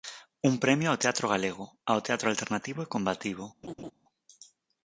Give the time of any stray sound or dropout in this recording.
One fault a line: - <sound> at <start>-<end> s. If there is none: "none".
- laugh at 3.6-3.9 s